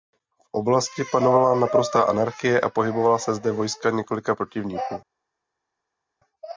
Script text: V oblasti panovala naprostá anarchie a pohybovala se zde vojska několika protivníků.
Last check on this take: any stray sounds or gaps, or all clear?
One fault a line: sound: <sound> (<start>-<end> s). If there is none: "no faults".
no faults